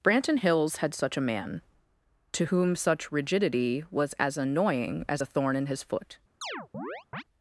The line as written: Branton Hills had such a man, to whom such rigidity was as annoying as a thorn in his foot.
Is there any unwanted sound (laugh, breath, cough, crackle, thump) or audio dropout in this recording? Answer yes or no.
yes